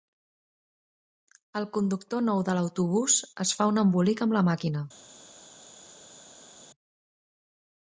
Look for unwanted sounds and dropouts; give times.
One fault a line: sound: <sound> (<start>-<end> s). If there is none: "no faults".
no faults